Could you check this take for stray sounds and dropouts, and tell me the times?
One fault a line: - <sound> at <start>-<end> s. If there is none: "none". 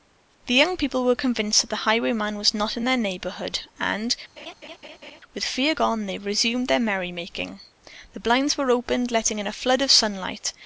- laugh at 4.4-5.2 s